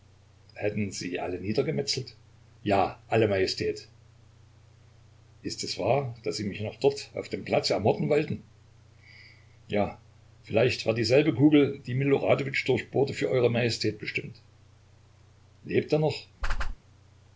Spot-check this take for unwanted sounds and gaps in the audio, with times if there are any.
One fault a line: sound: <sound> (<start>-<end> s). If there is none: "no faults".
sound: whoosh (16.4-16.8 s)